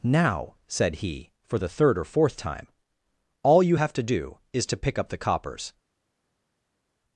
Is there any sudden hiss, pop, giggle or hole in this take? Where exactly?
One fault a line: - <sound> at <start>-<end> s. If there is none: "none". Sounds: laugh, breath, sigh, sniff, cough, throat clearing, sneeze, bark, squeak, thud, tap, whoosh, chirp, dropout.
none